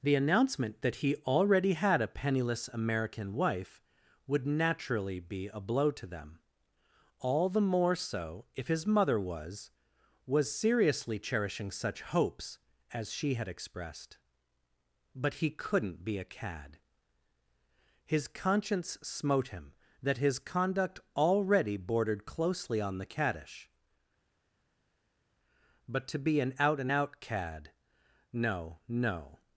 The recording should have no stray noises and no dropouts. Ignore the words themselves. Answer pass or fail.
pass